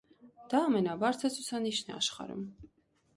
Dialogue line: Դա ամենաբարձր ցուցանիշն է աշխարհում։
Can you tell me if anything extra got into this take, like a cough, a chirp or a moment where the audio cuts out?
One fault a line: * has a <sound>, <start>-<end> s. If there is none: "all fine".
all fine